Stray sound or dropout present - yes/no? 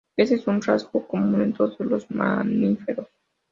no